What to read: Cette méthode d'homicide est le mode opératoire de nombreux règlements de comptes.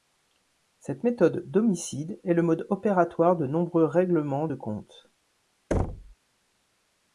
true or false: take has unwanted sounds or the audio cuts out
true